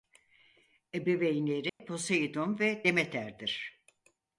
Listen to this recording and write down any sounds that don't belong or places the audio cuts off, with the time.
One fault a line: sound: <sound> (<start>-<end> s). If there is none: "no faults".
sound: dropout (1.7-1.8 s)